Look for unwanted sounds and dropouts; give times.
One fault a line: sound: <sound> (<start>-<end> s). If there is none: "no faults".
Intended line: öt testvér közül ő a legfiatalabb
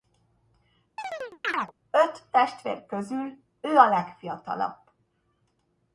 sound: chirp (1.0-1.7 s)